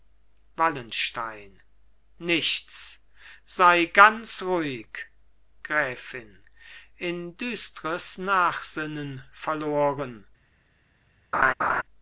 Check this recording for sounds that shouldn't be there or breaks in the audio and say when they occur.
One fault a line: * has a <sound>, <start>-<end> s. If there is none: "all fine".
* has a laugh, 11.3-11.8 s